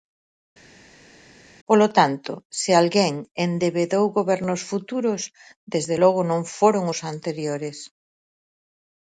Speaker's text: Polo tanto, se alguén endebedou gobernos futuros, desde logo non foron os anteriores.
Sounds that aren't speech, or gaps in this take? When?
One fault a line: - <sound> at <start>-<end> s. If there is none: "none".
none